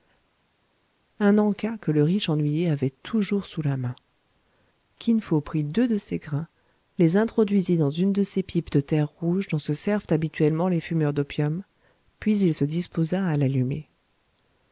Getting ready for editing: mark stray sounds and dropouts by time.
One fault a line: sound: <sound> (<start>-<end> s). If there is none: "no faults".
no faults